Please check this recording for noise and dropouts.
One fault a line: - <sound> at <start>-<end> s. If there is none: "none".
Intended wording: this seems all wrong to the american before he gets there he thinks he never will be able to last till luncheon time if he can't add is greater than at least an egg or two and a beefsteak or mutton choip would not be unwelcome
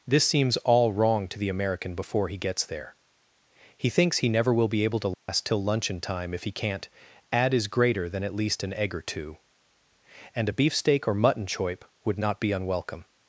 - dropout at 5.1-5.3 s